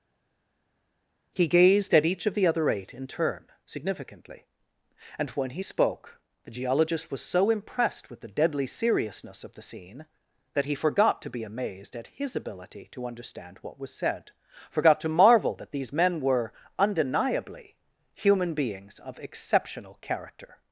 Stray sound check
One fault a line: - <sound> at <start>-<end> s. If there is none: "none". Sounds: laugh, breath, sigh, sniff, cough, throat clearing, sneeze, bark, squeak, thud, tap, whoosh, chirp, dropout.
none